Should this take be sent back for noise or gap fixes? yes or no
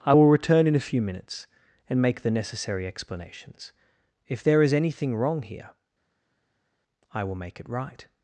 no